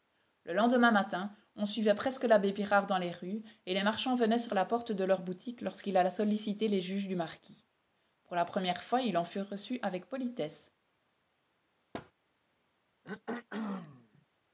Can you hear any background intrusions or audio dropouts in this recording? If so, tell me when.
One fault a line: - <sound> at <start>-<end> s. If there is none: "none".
- thud at 11.9-12.1 s
- throat clearing at 13.0-14.3 s